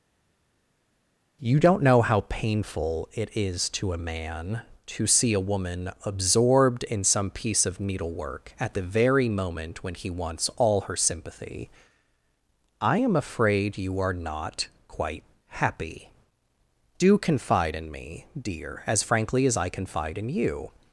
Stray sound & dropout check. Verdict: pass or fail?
pass